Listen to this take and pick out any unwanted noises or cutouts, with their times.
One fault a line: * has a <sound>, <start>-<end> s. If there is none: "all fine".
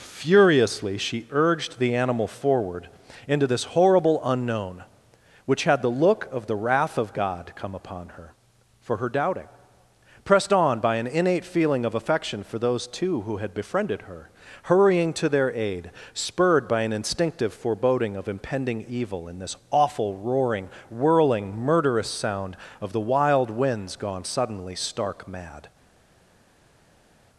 all fine